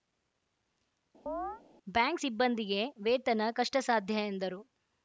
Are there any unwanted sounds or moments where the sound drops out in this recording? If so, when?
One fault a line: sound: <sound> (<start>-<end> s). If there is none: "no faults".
sound: chirp (1.3-1.6 s)